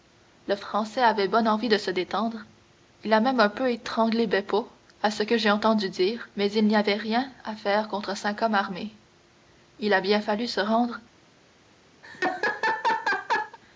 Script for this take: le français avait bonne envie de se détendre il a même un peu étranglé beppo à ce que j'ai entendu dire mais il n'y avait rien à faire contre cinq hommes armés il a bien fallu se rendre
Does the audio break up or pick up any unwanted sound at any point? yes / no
yes